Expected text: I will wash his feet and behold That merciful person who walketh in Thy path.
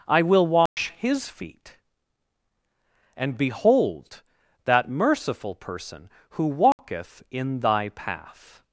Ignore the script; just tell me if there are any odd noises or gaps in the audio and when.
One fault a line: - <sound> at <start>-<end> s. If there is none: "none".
- dropout at 0.7-0.8 s
- dropout at 6.7-6.8 s